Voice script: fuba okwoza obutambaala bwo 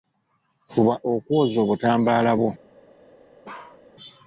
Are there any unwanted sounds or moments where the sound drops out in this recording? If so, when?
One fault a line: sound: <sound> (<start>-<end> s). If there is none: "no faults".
sound: bark (3.4-3.8 s)